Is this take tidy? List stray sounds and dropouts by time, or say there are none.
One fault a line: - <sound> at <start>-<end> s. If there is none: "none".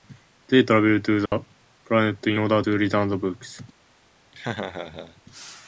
- dropout at 1.3-1.3 s
- laugh at 4.3-5.2 s